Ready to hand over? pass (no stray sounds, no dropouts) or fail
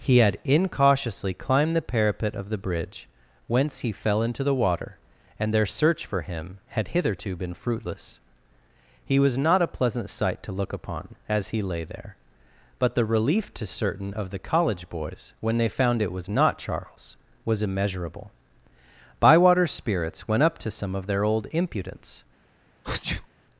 fail